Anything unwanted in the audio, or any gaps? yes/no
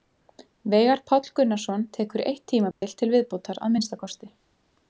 yes